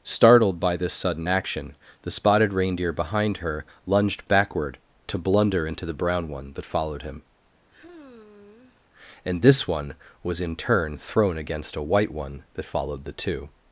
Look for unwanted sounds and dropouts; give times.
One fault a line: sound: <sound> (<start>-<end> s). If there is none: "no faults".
sound: sigh (7.7-8.9 s)